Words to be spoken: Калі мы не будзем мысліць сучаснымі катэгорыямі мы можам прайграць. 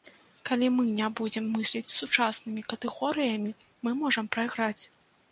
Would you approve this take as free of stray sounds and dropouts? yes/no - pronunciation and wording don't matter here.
yes